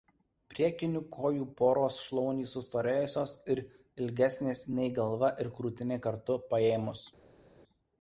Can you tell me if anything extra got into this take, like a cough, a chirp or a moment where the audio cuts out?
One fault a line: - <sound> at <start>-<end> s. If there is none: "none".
none